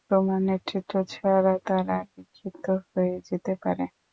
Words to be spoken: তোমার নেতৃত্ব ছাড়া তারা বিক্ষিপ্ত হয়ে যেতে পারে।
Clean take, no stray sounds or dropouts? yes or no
yes